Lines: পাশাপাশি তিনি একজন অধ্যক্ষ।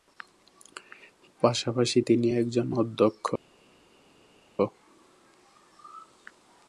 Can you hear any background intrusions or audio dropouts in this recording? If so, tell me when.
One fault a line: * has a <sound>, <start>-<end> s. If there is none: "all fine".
all fine